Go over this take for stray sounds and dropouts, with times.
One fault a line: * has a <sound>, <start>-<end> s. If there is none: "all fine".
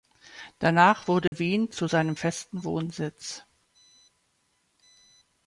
* has a dropout, 1.3-1.3 s